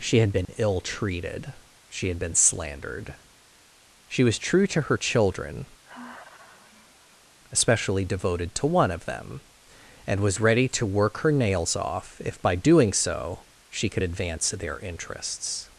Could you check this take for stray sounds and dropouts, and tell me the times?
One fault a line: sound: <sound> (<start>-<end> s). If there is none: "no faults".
sound: dropout (0.5-0.5 s)
sound: sigh (5.8-7.4 s)